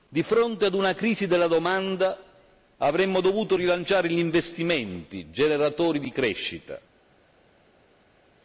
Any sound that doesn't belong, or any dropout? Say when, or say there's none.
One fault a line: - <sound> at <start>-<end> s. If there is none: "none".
none